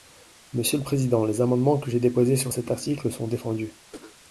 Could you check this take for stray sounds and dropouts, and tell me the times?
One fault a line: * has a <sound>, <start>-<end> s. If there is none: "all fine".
* has a cough, 3.9-4.2 s